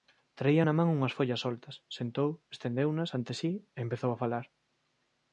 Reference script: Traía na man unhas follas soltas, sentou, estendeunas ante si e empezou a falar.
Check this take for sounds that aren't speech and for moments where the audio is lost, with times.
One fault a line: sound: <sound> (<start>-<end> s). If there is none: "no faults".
no faults